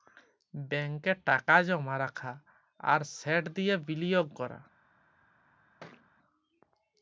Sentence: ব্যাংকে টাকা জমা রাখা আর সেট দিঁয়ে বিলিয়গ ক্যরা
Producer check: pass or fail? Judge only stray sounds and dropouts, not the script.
fail